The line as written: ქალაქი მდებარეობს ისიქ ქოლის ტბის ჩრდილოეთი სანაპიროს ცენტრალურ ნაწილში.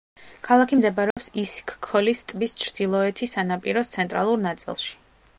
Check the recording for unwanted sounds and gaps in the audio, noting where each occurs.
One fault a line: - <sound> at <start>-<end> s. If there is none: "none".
- dropout at 1.1-1.2 s